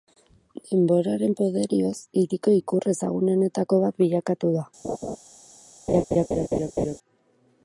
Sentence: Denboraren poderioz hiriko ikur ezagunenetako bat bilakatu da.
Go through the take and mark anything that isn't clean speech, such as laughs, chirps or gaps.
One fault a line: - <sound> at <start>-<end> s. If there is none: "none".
- laugh at 4.8-5.2 s
- laugh at 5.9-7.0 s